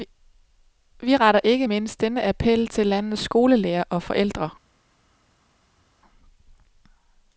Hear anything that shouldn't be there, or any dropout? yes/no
no